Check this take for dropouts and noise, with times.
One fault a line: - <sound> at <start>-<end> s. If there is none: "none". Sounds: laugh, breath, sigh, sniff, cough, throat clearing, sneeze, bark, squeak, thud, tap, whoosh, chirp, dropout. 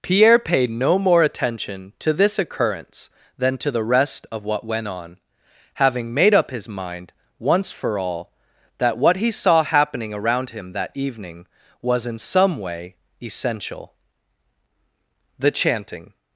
none